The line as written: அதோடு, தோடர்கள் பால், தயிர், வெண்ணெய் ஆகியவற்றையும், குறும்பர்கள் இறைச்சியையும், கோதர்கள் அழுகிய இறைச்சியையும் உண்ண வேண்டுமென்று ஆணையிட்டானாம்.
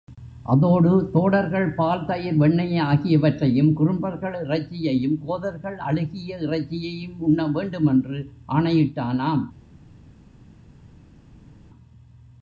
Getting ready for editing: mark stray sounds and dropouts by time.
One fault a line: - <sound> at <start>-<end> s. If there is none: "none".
none